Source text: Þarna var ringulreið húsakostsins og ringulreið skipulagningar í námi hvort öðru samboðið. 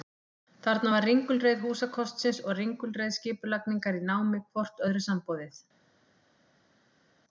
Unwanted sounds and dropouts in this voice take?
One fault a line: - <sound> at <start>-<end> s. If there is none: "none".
none